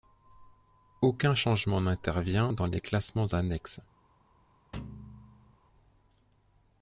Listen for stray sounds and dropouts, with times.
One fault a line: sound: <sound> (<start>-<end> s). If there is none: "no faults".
sound: thud (4.7-5.6 s)